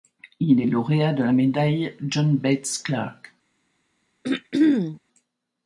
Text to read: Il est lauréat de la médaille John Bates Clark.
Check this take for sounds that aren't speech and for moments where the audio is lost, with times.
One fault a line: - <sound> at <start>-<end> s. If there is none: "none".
- throat clearing at 4.2-5.0 s